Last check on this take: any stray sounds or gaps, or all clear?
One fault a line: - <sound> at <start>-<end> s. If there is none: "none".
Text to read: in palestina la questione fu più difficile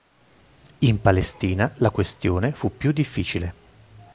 none